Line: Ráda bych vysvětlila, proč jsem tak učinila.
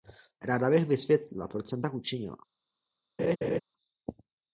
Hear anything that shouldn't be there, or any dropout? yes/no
yes